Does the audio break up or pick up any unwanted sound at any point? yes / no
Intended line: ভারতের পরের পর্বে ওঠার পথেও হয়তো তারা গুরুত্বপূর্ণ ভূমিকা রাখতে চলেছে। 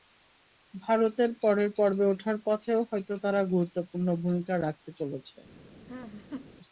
yes